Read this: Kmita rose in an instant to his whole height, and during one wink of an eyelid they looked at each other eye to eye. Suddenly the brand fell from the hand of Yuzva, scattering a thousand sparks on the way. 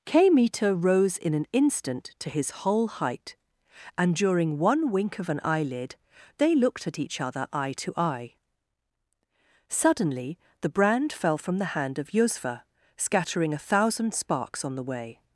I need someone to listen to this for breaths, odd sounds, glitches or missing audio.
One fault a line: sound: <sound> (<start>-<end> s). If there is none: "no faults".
no faults